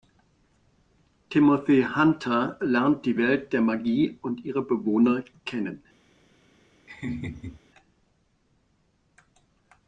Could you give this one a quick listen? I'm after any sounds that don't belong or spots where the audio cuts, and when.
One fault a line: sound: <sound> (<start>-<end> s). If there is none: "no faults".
sound: laugh (6.9-7.6 s)